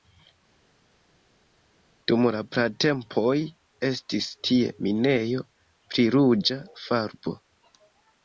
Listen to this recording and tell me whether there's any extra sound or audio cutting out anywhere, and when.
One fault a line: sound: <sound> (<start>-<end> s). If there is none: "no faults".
no faults